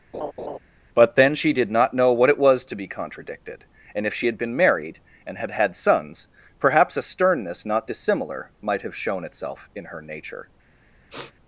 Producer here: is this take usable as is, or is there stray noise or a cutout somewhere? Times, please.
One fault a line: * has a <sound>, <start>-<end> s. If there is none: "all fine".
* has a laugh, 0.1-0.6 s
* has a sniff, 11.1-11.3 s